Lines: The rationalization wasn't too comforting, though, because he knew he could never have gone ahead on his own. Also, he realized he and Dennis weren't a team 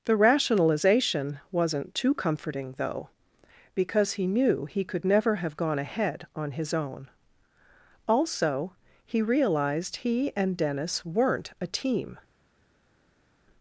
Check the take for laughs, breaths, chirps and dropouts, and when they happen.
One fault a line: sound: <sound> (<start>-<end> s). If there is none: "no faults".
no faults